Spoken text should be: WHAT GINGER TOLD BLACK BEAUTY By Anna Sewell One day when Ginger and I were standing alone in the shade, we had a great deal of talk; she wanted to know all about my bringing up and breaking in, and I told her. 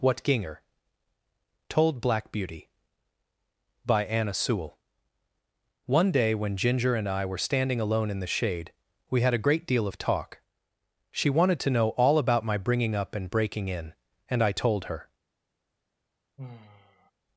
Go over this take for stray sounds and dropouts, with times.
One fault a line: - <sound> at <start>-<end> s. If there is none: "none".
- sigh at 16.4-17.1 s